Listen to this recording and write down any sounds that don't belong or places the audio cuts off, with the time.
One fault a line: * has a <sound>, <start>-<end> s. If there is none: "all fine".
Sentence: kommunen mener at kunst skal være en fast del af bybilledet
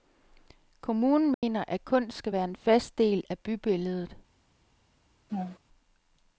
* has a dropout, 1.3-1.4 s
* has a laugh, 5.3-5.6 s